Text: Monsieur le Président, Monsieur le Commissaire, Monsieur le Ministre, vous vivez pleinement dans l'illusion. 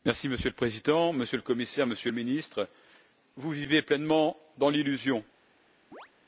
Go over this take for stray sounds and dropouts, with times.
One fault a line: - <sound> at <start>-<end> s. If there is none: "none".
- chirp at 5.9-6.1 s